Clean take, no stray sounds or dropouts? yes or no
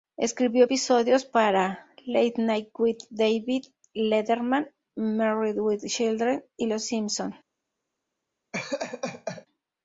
no